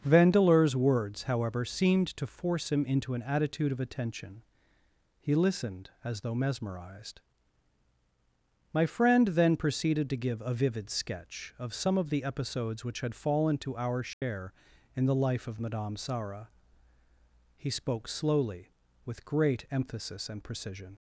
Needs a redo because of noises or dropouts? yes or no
yes